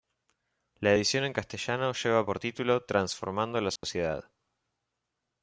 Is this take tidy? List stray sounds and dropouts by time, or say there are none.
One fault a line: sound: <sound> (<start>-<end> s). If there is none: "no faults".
sound: dropout (3.8-3.8 s)